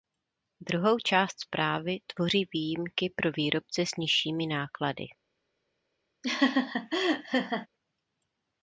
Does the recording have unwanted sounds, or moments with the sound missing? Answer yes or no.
yes